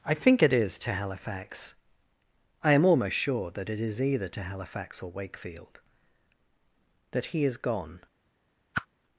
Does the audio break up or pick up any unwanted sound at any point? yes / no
yes